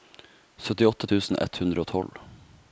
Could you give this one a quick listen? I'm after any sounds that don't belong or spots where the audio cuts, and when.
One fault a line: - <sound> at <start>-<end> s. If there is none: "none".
none